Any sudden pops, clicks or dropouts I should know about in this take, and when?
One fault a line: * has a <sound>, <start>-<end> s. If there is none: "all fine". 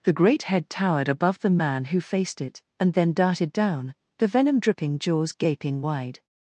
all fine